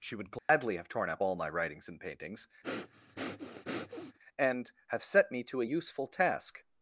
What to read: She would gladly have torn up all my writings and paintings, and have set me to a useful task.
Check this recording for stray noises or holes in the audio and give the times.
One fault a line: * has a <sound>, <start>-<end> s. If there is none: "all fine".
* has a dropout, 0.4-0.5 s
* has a breath, 2.6-4.2 s